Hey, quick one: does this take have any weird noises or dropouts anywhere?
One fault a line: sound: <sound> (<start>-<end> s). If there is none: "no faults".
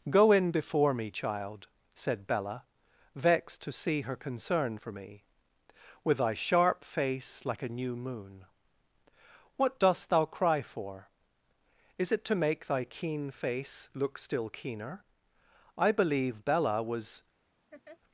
sound: laugh (17.7-18.0 s)